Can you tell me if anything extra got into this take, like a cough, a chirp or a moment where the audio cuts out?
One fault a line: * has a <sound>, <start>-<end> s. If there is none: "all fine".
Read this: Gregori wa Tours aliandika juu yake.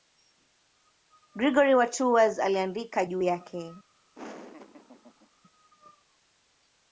* has a laugh, 4.1-5.3 s